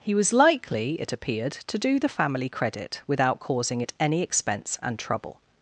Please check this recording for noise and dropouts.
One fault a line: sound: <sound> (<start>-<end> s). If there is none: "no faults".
no faults